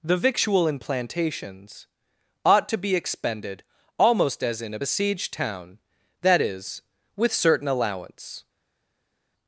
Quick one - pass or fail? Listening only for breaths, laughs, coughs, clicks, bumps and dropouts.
pass